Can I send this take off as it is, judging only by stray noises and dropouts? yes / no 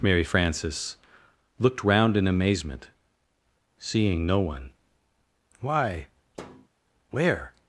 no